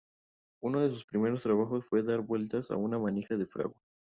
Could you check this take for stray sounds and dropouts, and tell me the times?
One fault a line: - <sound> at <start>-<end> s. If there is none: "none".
none